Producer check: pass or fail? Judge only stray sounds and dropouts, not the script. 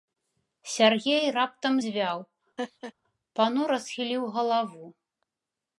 fail